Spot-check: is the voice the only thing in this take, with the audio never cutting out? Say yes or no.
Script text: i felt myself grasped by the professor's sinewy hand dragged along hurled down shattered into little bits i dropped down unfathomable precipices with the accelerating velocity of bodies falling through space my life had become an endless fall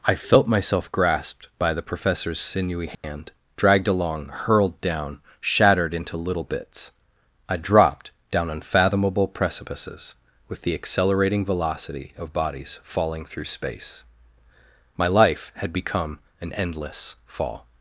no